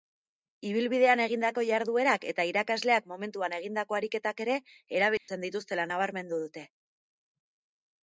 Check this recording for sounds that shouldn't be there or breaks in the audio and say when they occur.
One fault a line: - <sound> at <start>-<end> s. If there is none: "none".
- dropout at 5.2-5.3 s